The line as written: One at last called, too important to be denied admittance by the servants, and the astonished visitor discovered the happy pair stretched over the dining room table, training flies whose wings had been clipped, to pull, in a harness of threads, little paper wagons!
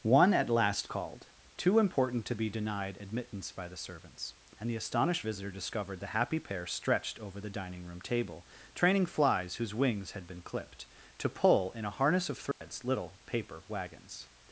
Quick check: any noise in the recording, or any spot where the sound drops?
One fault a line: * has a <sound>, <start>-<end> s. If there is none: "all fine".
* has a dropout, 12.5-12.6 s